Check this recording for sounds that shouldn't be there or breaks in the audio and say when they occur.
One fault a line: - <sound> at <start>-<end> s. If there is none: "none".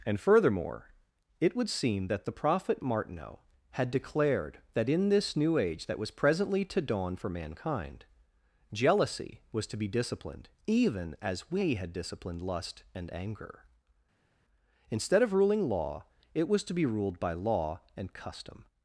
none